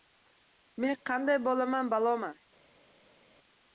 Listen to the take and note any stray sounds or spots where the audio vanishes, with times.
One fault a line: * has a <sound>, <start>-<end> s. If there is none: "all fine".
all fine